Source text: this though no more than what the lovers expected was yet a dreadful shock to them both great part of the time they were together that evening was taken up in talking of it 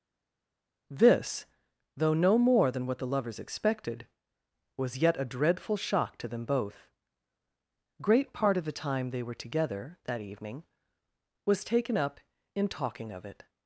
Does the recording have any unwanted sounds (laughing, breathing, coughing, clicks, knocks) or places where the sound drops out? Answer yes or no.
no